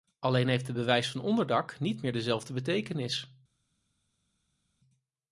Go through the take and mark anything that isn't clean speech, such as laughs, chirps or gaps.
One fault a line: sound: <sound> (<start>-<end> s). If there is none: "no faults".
no faults